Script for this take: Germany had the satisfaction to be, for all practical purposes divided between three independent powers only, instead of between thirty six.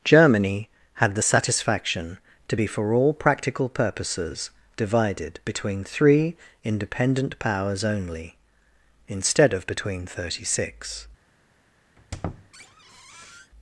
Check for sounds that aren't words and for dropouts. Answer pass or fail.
fail